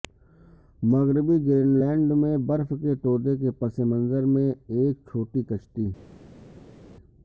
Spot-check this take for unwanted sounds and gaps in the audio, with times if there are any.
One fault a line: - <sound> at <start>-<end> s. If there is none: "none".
none